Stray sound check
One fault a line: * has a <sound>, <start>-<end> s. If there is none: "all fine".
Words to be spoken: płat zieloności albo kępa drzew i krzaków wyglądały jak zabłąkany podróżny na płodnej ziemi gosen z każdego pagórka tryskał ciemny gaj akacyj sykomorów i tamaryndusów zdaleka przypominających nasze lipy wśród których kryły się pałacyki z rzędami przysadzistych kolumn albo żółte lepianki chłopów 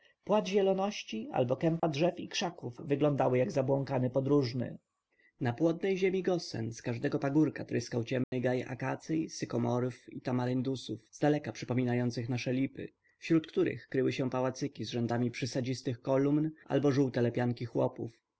* has a dropout, 1.8-1.8 s
* has a dropout, 8.2-8.3 s